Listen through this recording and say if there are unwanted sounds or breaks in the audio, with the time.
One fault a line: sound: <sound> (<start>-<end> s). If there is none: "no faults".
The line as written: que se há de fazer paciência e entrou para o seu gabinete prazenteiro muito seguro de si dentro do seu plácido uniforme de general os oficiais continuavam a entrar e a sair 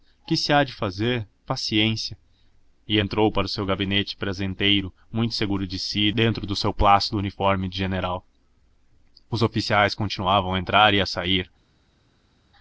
no faults